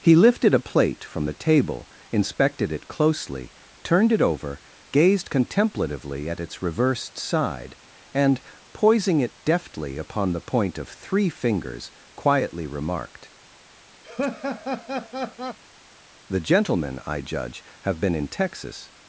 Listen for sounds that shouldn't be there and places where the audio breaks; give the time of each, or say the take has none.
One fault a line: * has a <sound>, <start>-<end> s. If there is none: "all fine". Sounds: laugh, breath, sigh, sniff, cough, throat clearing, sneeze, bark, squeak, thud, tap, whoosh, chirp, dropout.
* has a laugh, 14.0-15.6 s